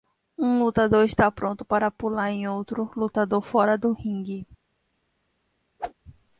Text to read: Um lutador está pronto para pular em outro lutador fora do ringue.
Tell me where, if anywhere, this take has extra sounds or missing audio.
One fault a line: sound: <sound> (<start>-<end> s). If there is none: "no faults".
sound: whoosh (5.8-5.9 s)